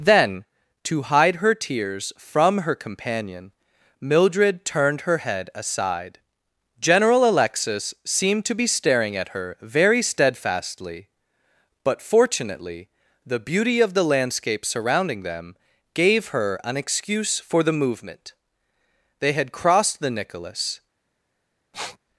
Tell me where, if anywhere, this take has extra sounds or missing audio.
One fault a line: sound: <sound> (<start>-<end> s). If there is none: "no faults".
sound: sniff (21.7-22.0 s)